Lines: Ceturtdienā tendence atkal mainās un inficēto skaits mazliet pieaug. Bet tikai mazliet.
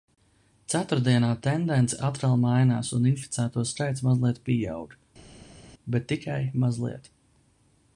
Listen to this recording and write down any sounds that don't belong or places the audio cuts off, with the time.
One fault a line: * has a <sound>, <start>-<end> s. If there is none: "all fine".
all fine